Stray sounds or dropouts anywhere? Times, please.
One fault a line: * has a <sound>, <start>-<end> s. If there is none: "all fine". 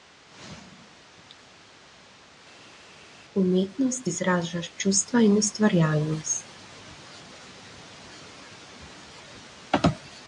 all fine